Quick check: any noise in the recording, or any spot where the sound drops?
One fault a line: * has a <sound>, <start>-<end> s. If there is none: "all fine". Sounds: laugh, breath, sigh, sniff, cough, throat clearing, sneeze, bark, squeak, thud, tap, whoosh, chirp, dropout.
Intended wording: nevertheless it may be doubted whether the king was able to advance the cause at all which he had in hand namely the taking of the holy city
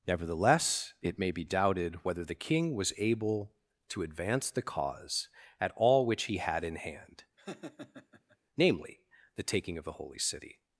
* has a laugh, 7.4-8.4 s